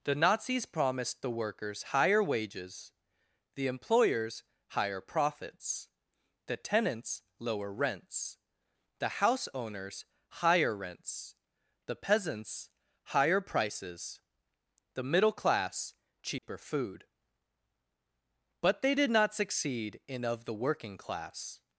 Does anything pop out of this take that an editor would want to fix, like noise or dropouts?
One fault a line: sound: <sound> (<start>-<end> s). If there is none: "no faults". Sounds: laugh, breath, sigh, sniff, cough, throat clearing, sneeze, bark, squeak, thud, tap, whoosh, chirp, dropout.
sound: dropout (16.4-16.4 s)